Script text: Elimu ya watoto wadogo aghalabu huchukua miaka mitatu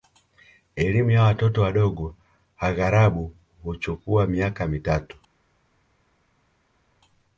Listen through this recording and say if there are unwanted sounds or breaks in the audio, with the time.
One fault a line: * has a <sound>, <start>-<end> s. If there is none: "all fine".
all fine